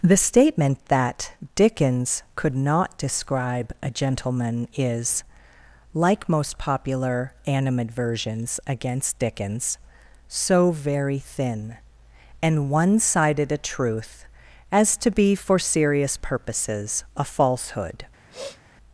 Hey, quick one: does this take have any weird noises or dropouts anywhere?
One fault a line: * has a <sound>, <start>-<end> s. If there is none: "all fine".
* has a sniff, 18.3-18.6 s